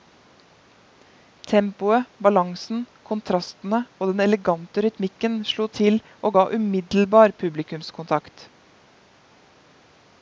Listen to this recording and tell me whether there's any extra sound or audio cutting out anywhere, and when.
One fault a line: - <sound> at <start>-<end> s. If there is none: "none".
none